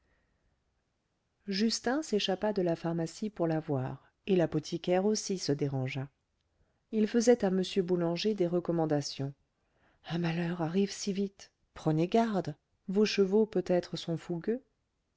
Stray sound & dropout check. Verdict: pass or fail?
pass